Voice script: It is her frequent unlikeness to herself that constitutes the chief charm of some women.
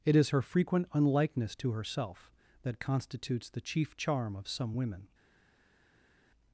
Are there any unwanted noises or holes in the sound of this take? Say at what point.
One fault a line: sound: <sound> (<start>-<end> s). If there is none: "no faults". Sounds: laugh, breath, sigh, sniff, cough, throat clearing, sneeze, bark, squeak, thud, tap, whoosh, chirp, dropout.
no faults